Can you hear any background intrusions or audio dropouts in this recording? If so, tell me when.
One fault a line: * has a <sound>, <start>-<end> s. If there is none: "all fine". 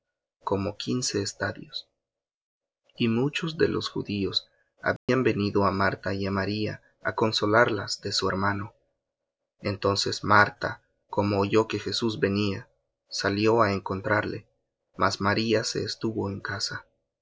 * has a dropout, 5.0-5.1 s